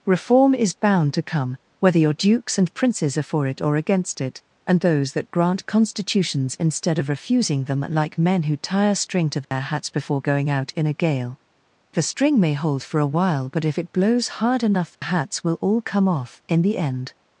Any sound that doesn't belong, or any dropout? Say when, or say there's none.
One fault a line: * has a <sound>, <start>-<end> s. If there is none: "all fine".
* has a dropout, 9.4-9.5 s
* has a dropout, 14.9-15.0 s